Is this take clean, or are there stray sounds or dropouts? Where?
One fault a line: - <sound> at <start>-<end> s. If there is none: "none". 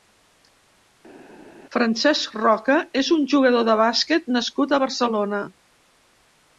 none